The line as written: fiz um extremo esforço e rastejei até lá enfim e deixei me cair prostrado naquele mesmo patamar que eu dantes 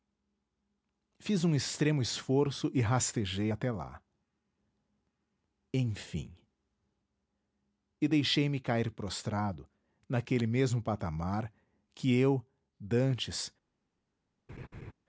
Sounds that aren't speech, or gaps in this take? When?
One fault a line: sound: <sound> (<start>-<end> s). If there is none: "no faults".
sound: laugh (14.5-14.9 s)